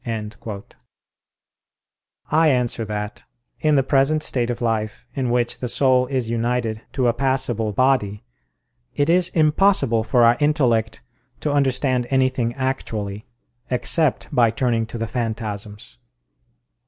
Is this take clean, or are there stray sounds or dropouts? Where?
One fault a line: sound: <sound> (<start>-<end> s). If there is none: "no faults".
no faults